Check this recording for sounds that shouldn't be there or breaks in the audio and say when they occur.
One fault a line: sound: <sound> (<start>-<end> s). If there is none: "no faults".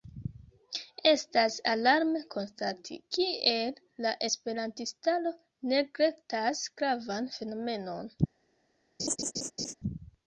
sound: laugh (9.0-9.7 s)